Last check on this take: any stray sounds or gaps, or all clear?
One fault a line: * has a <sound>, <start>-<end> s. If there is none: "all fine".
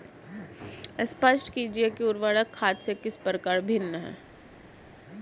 all fine